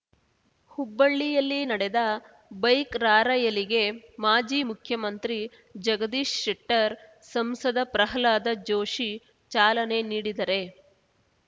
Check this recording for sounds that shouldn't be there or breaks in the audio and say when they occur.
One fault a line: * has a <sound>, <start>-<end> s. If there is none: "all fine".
all fine